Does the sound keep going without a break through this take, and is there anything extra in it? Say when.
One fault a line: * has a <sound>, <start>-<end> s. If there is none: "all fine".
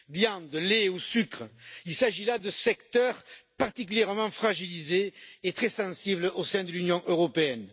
all fine